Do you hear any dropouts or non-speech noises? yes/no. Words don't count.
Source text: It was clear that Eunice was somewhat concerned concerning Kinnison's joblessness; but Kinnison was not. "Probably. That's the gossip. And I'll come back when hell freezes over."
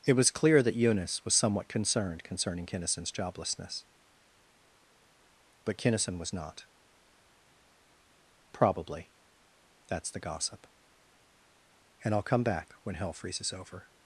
no